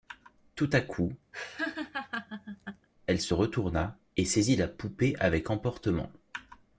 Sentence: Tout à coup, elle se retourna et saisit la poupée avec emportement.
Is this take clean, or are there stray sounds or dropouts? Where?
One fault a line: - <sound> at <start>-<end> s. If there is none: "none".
- laugh at 1.3-2.9 s